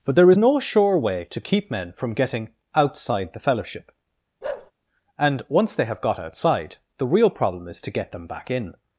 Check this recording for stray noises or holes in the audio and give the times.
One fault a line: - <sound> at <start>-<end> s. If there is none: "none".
- bark at 4.4-4.7 s